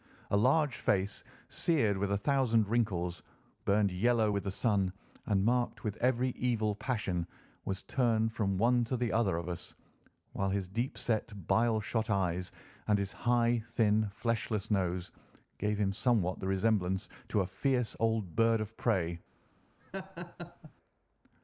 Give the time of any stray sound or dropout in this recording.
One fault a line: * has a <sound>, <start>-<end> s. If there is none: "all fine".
* has a laugh, 19.8-20.7 s